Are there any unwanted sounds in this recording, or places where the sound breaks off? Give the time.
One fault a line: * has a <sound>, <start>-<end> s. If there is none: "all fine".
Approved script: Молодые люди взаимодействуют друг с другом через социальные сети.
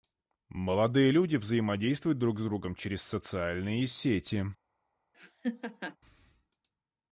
* has a laugh, 5.1-6.0 s